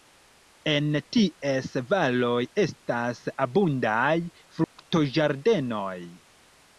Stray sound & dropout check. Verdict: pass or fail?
fail